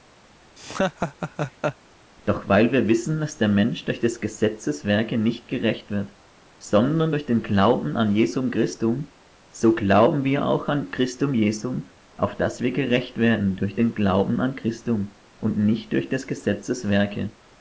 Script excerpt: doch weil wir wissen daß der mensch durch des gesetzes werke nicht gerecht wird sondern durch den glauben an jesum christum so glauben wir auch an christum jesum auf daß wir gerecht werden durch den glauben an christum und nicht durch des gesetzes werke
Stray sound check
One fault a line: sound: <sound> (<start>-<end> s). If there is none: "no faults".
sound: laugh (0.6-1.8 s)